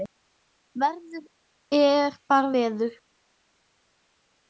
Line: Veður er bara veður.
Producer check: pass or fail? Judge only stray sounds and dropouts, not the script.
pass